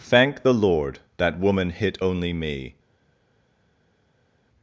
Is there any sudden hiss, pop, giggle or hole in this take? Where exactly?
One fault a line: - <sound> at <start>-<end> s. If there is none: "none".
none